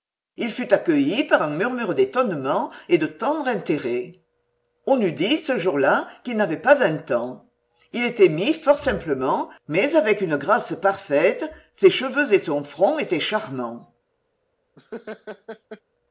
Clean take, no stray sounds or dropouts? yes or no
no